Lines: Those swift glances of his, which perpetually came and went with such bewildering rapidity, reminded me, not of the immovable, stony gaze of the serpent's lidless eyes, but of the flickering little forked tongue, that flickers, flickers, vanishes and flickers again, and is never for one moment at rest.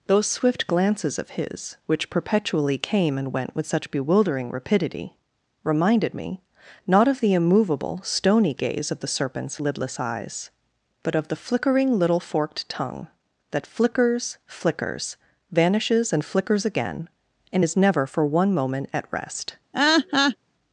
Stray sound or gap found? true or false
true